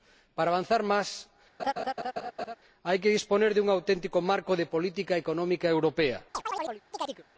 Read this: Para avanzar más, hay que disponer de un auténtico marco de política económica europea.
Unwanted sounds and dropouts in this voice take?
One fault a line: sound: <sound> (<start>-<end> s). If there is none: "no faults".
sound: laugh (1.6-2.6 s)
sound: chirp (6.3-7.2 s)